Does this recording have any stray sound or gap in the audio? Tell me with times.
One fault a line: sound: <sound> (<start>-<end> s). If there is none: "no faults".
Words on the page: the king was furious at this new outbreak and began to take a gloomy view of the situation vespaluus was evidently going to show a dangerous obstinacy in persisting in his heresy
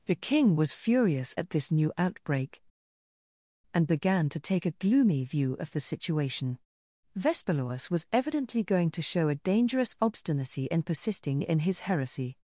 no faults